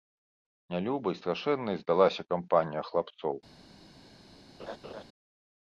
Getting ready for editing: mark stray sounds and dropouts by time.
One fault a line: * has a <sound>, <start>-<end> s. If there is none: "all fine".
* has a laugh, 4.6-5.0 s